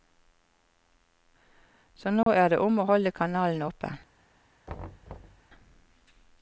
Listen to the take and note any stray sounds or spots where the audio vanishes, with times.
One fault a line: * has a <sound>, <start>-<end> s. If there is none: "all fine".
* has a dropout, 2.2-2.3 s
* has a thud, 4.7-5.4 s